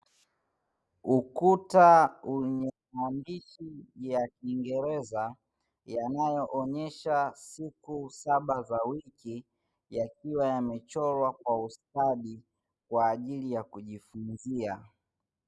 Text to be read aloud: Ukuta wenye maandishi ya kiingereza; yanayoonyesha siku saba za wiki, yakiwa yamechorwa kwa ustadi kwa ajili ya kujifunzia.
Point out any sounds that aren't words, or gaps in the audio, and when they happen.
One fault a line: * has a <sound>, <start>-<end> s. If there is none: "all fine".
all fine